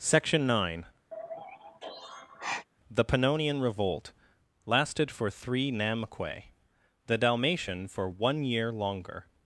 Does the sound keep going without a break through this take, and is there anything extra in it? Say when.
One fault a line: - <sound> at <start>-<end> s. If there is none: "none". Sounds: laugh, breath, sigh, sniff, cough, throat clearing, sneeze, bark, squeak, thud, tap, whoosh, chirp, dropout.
- sigh at 1.1-2.7 s